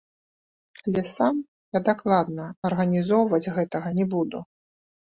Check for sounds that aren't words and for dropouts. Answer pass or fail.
pass